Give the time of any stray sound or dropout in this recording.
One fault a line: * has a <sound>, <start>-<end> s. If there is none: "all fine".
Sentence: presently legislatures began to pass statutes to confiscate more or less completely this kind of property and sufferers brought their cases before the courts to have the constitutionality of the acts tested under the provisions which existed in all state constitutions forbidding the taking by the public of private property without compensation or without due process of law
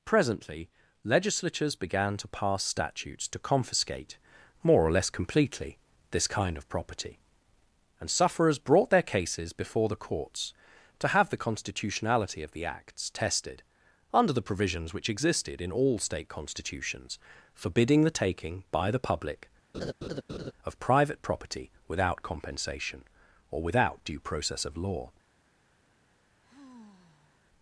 * has a laugh, 19.7-20.5 s
* has a sigh, 26.4-27.4 s